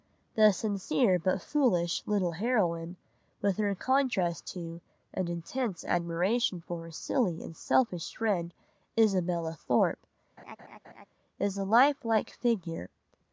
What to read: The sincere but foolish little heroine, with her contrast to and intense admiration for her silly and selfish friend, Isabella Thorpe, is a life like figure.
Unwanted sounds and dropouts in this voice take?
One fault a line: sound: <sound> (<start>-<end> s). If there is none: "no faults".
sound: laugh (10.4-11.1 s)